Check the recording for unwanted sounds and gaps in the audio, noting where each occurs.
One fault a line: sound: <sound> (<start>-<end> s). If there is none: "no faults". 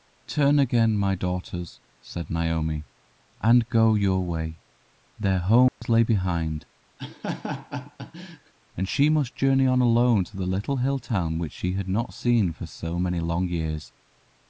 sound: dropout (5.7-5.8 s)
sound: laugh (7.0-8.5 s)